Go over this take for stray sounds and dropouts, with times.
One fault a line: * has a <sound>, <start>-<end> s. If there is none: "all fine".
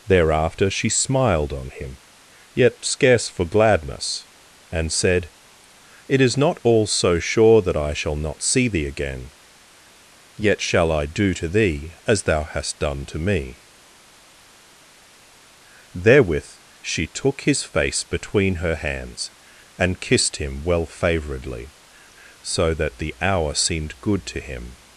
all fine